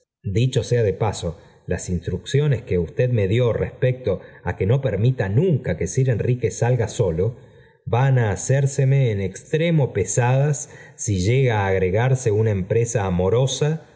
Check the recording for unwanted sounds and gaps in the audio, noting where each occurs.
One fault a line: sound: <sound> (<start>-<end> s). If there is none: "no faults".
no faults